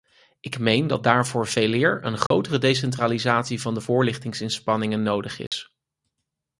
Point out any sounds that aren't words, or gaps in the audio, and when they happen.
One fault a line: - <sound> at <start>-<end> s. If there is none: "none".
- dropout at 2.3-2.3 s
- dropout at 5.5-5.5 s